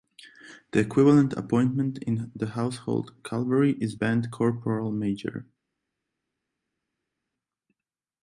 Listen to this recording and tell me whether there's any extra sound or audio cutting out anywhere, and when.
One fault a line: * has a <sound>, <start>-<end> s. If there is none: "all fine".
all fine